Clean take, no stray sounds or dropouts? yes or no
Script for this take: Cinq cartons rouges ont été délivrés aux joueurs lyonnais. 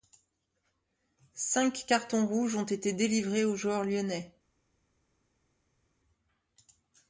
yes